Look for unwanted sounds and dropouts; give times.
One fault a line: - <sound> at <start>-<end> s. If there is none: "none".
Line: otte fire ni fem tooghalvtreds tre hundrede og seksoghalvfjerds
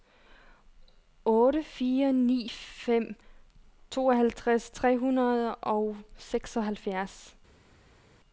none